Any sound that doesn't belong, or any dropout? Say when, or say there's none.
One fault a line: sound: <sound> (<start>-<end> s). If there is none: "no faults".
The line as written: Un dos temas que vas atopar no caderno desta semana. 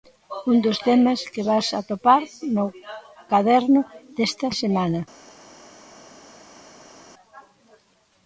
no faults